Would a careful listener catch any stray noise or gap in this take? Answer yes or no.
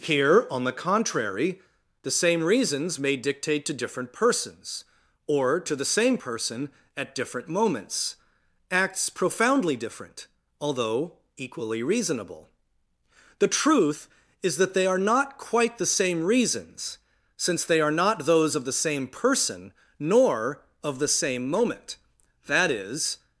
no